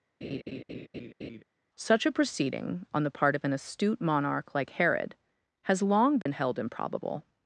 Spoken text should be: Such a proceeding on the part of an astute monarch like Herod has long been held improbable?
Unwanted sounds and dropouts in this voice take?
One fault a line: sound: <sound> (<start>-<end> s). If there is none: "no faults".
sound: laugh (0.2-1.4 s)
sound: dropout (6.2-6.3 s)